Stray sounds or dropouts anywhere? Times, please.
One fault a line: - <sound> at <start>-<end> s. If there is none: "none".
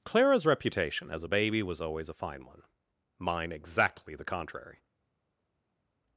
none